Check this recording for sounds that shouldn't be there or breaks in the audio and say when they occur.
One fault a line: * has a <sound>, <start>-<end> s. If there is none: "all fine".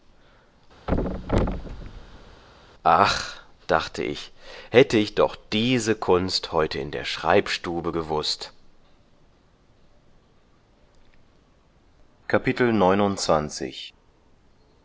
* has a thud, 0.9-2.4 s